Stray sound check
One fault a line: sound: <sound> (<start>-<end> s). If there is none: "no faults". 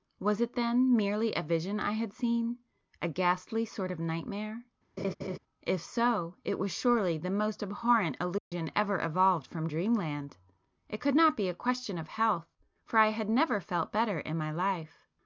sound: laugh (5.0-5.4 s)
sound: dropout (8.4-8.5 s)